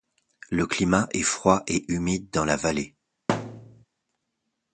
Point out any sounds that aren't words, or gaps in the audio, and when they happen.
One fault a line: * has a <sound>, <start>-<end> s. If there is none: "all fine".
* has a thud, 3.3-3.8 s